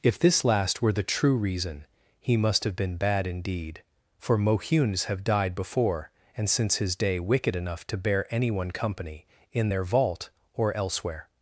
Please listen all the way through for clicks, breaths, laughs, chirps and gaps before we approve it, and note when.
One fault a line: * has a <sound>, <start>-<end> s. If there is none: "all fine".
all fine